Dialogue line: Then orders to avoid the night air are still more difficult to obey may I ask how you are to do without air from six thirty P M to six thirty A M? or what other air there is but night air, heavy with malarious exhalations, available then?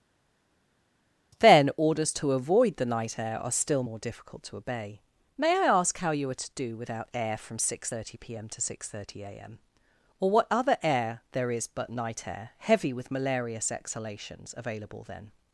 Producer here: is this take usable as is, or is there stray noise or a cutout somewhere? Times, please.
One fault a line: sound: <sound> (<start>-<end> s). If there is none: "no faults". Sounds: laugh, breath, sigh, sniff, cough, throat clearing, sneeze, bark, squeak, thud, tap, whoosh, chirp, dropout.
no faults